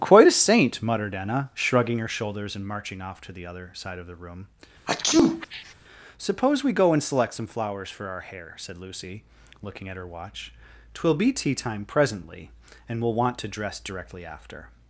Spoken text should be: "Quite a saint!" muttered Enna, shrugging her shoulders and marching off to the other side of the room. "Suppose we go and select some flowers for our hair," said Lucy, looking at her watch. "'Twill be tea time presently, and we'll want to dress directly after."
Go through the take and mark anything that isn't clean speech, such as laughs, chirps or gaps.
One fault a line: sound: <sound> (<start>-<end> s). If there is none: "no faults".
sound: sneeze (4.9-5.7 s)